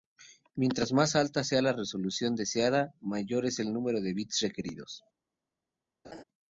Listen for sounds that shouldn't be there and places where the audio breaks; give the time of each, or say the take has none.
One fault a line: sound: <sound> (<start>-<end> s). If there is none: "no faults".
sound: laugh (6.0-6.2 s)